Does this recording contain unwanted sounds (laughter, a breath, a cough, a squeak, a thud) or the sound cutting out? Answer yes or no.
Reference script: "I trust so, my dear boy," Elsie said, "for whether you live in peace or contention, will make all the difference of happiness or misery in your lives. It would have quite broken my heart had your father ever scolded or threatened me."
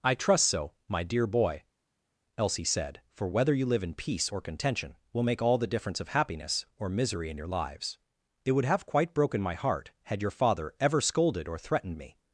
no